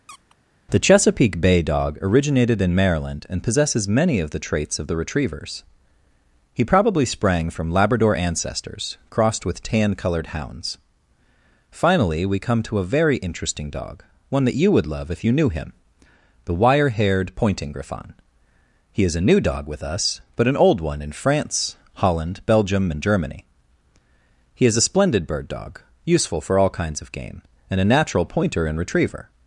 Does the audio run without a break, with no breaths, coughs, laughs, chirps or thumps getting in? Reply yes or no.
no